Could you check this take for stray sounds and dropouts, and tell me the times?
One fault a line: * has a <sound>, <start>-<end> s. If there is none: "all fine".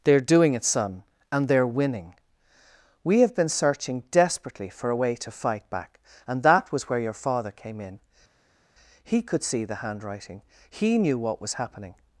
all fine